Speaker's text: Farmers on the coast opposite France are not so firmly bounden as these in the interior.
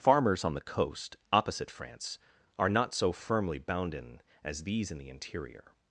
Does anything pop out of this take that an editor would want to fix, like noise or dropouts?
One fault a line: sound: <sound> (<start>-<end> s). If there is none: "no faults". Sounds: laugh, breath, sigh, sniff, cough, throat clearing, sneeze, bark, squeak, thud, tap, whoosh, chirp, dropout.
no faults